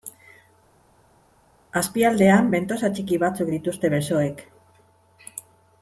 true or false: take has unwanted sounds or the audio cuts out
false